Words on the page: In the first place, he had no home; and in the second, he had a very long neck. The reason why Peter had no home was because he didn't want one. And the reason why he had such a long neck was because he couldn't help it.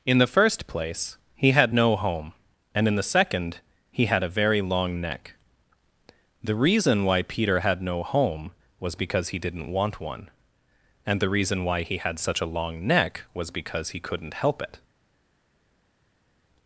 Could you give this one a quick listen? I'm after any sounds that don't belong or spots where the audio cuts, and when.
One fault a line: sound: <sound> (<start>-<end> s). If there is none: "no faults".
no faults